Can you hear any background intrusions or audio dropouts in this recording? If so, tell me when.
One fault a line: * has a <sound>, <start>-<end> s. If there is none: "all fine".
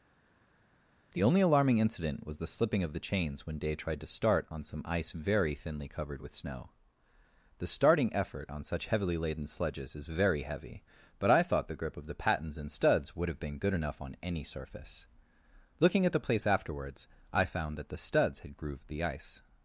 all fine